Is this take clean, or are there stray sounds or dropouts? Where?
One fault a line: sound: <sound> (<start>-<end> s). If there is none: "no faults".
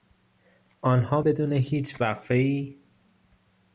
no faults